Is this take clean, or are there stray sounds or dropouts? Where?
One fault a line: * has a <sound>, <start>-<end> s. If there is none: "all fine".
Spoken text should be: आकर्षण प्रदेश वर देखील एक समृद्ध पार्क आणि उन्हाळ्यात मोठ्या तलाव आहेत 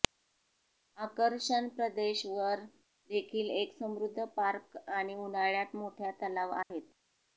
* has a dropout, 6.6-6.7 s